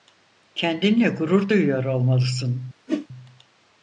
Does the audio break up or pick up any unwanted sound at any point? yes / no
yes